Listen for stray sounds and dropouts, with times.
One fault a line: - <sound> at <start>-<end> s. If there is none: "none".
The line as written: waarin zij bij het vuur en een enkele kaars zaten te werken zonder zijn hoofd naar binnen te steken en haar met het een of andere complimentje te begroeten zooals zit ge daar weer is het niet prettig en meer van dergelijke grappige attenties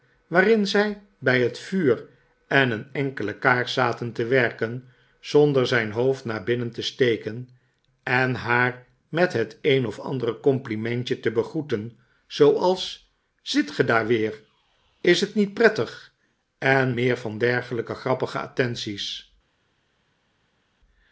none